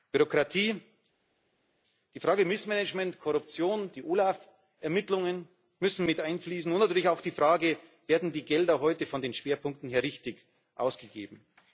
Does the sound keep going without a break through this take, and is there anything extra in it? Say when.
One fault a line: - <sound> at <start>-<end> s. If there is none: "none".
none